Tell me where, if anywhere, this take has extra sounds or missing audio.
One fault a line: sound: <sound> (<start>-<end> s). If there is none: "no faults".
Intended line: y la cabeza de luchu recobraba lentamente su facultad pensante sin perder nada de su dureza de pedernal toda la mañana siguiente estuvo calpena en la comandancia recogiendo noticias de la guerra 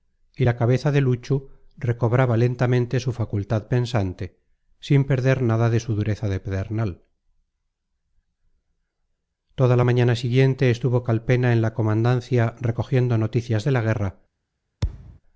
sound: thud (14.8-15.2 s)